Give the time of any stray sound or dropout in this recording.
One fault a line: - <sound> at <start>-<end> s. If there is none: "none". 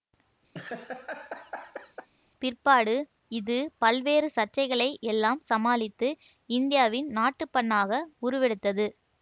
- laugh at 0.5-2.1 s